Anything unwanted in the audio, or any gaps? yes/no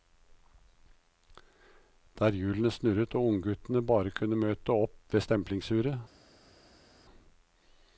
no